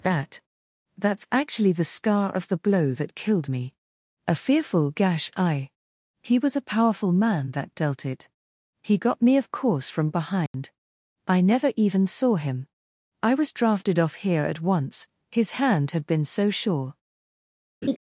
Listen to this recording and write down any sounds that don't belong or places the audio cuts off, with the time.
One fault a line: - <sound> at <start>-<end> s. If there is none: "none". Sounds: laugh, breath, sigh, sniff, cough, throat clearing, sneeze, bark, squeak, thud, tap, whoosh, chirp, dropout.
- dropout at 10.5-10.5 s
- laugh at 17.8-18.0 s